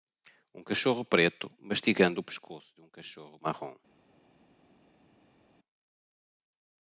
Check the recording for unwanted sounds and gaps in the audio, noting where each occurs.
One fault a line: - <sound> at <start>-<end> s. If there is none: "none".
none